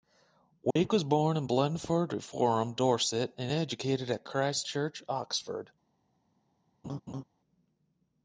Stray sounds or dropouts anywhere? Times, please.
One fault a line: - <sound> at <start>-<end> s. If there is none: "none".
- dropout at 0.7-0.8 s
- laugh at 6.8-7.2 s